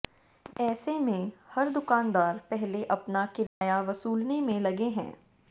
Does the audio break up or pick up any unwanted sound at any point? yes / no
yes